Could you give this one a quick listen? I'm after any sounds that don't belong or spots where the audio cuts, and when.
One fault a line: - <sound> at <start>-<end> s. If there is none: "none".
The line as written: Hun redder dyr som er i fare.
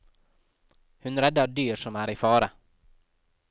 none